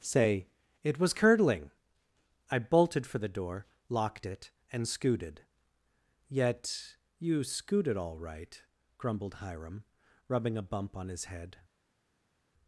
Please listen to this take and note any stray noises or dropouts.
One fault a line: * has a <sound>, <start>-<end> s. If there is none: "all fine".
all fine